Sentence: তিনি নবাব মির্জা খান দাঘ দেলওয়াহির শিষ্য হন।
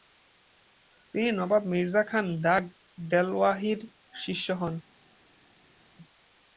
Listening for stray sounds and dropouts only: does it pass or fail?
pass